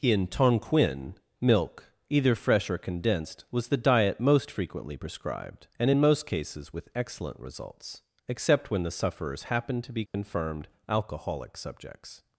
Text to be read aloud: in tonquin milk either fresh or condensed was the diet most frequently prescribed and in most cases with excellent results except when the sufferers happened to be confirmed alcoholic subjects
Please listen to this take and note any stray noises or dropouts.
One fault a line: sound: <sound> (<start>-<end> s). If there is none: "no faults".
sound: dropout (10.1-10.1 s)